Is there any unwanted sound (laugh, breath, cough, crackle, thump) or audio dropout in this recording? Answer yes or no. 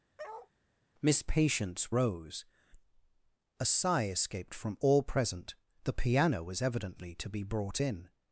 yes